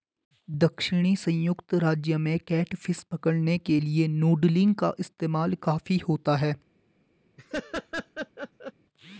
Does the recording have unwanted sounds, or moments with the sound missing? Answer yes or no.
yes